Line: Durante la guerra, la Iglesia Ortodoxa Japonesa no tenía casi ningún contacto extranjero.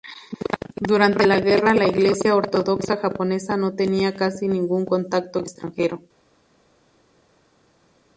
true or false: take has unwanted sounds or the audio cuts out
false